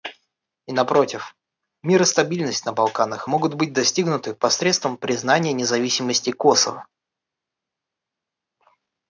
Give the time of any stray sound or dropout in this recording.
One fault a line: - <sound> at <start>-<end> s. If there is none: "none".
none